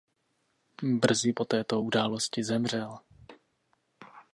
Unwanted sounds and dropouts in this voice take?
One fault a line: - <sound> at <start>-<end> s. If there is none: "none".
none